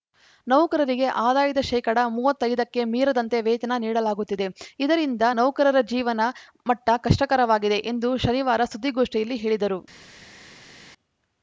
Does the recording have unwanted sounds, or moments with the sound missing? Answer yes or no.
no